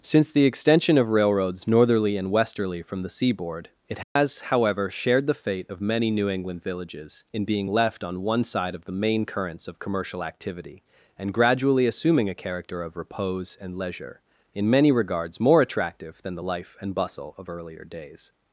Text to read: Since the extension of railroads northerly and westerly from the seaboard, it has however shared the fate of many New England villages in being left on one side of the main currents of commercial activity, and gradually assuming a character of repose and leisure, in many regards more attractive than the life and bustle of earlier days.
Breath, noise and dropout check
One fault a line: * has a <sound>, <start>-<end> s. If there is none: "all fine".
* has a dropout, 4.0-4.2 s